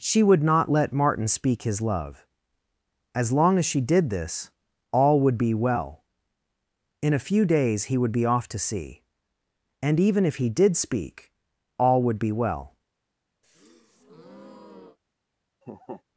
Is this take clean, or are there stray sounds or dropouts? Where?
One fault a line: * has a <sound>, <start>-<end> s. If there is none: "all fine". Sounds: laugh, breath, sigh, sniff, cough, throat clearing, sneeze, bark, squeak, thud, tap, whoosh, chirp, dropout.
* has a breath, 13.4-15.0 s
* has a laugh, 15.6-16.0 s